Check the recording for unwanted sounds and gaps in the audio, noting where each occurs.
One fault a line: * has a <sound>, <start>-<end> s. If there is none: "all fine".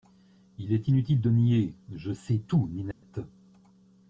* has a dropout, 2.9-3.0 s